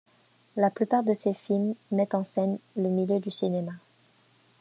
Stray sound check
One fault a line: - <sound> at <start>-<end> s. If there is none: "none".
none